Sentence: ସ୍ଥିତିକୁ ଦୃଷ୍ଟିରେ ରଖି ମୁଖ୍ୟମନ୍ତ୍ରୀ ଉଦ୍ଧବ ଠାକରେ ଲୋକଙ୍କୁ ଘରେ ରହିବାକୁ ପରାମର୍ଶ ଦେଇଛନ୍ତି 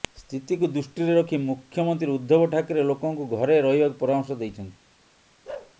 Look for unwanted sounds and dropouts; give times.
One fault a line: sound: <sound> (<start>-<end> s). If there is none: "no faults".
sound: bark (5.4-5.7 s)